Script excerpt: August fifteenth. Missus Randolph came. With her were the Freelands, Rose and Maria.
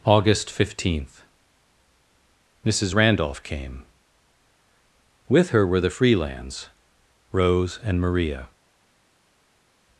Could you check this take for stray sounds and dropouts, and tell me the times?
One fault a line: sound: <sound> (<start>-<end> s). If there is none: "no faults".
no faults